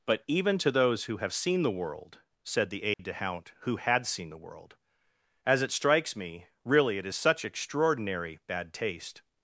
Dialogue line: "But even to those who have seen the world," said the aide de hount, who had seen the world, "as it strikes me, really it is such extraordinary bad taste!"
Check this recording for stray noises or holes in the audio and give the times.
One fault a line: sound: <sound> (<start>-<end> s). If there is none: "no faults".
sound: dropout (2.9-3.0 s)